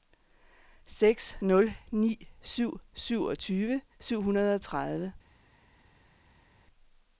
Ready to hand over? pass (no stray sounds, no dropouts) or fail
pass